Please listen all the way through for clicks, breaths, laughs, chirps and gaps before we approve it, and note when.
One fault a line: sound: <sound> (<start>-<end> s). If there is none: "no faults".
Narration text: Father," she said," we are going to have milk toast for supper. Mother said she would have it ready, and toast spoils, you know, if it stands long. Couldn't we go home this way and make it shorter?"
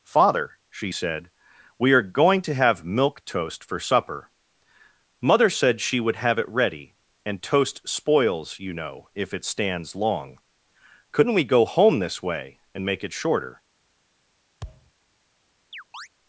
sound: thud (14.6-14.9 s)
sound: chirp (15.7-16.1 s)